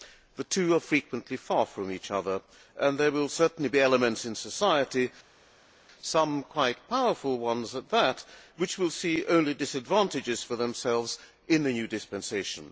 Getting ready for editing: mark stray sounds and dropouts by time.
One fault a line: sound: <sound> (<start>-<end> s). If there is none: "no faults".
no faults